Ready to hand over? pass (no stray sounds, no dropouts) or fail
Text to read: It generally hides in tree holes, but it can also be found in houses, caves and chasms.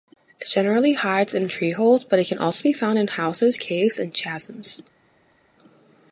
pass